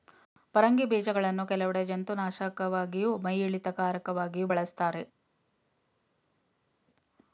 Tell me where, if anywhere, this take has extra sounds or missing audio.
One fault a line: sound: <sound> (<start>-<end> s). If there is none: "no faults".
no faults